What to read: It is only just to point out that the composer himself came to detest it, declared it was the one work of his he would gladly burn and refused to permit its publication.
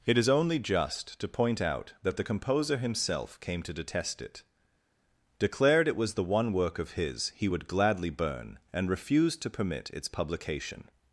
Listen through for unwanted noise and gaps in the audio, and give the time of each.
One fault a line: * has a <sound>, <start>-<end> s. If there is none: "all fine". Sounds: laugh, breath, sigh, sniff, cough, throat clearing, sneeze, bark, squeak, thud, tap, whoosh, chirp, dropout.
all fine